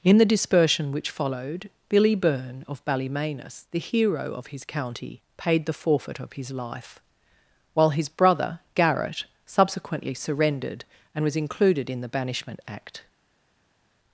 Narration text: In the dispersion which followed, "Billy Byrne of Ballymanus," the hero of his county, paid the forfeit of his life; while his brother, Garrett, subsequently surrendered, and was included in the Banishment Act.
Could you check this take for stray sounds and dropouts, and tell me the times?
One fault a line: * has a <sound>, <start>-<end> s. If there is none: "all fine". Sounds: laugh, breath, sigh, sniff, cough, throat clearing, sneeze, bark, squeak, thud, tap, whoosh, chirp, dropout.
all fine